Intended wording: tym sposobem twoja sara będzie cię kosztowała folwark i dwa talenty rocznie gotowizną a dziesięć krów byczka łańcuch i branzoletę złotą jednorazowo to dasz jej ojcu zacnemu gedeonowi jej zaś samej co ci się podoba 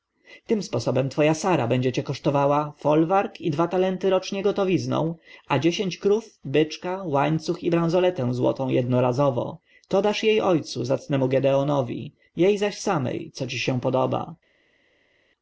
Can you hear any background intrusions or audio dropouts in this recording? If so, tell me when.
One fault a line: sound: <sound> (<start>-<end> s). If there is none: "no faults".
no faults